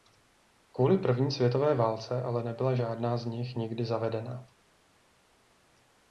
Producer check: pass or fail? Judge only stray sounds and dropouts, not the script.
pass